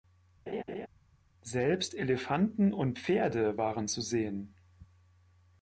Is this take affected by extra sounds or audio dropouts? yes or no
yes